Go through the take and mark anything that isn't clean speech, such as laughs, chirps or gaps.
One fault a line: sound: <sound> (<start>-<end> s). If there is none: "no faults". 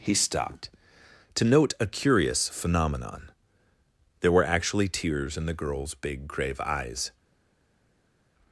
no faults